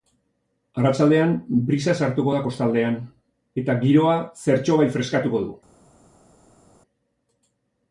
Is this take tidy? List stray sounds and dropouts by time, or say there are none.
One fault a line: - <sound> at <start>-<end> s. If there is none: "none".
none